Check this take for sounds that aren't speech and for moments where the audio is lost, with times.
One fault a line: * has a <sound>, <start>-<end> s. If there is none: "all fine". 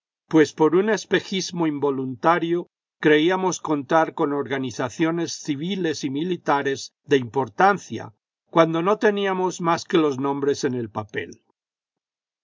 all fine